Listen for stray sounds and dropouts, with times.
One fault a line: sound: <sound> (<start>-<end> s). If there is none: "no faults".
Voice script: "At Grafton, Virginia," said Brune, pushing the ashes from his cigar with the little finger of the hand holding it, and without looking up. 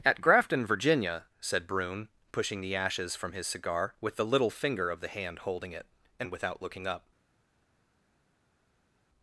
no faults